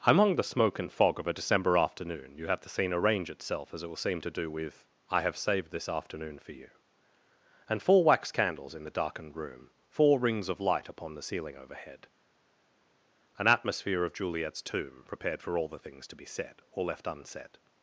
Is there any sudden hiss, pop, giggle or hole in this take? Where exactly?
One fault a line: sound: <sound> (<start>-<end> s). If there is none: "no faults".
no faults